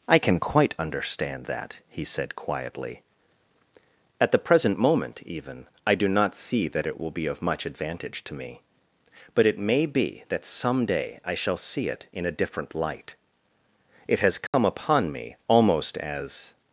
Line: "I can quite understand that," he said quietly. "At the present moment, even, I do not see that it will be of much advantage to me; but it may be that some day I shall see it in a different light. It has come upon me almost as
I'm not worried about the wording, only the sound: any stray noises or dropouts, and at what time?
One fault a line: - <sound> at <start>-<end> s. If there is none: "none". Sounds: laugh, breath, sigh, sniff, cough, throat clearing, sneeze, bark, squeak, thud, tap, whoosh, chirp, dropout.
- dropout at 14.5-14.5 s